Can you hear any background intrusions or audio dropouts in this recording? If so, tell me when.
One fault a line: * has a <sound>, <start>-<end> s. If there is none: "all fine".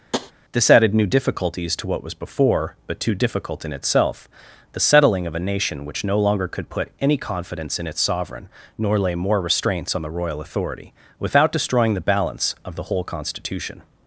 * has a tap, 0.1-0.3 s